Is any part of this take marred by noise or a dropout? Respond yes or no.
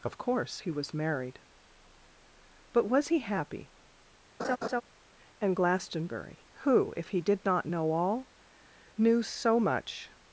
yes